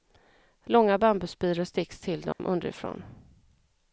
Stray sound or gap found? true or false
true